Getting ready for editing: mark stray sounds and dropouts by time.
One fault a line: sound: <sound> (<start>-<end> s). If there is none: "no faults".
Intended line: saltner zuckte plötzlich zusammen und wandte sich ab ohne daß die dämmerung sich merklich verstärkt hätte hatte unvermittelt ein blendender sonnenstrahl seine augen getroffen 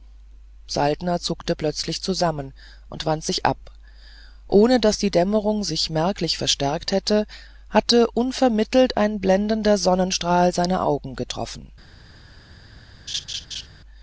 sound: laugh (13.1-13.7 s)